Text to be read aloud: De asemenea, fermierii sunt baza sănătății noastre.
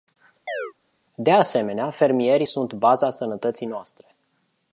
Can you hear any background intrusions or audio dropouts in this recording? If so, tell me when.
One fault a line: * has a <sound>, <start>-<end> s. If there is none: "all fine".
* has a chirp, 0.5-0.7 s